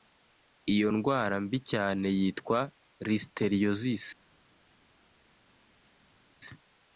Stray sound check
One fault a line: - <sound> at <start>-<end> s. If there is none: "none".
none